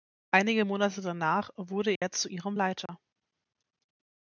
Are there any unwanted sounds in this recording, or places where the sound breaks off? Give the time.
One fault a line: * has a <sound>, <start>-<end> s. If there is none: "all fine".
* has a dropout, 2.0-2.0 s
* has a dropout, 2.9-2.9 s